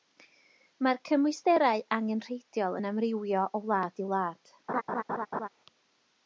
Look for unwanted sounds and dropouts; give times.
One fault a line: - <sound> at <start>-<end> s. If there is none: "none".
- laugh at 4.7-5.5 s